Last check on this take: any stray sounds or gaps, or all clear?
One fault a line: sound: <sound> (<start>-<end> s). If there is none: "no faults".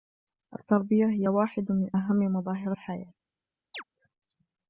sound: chirp (3.7-3.8 s)